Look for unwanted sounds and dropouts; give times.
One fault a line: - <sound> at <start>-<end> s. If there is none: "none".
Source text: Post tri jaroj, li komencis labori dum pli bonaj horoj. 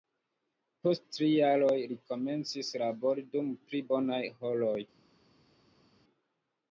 none